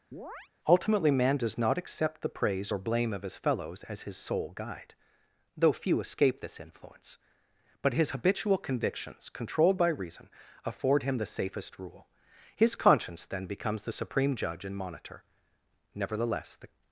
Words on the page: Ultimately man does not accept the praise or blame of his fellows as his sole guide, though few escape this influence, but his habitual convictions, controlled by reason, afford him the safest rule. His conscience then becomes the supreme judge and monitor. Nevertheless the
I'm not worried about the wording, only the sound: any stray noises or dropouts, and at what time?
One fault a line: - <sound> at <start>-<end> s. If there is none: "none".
- chirp at 0.1-0.5 s